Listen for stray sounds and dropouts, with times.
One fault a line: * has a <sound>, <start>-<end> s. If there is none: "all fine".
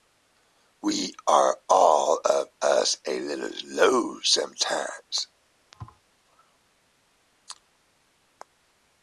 * has a thud, 5.7-6.0 s